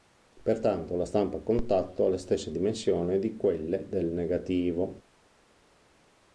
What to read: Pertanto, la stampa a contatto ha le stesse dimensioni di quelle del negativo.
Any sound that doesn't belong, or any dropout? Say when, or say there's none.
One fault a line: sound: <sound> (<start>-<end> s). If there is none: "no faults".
no faults